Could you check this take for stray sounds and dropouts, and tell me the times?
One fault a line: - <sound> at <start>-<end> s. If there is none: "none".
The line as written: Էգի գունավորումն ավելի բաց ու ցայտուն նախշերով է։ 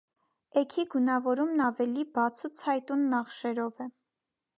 none